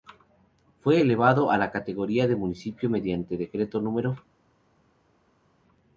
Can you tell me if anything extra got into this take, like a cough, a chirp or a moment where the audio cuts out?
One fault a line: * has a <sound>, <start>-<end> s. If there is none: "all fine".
all fine